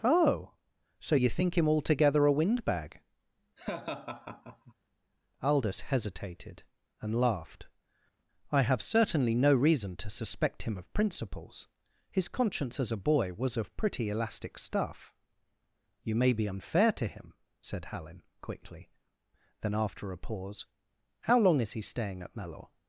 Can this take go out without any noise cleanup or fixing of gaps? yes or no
no